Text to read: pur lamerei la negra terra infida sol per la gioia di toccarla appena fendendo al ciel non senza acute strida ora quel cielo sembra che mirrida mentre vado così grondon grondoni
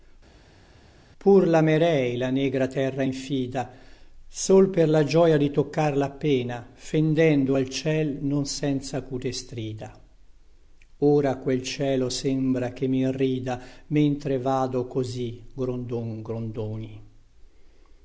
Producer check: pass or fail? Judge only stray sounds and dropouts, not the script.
pass